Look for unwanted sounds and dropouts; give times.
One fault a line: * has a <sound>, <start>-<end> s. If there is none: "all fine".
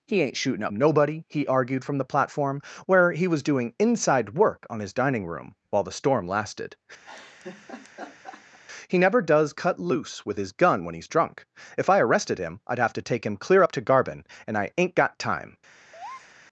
* has a laugh, 7.0-8.6 s
* has a breath, 15.9-16.4 s